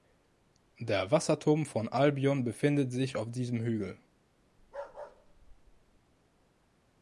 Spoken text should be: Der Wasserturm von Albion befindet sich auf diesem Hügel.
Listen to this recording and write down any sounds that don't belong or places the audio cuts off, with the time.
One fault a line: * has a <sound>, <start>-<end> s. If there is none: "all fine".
* has a bark, 4.6-6.0 s